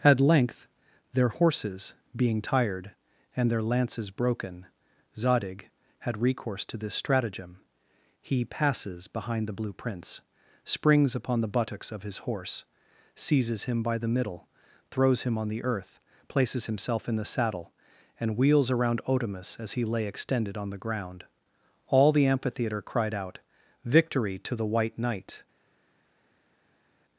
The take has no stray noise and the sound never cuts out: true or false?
true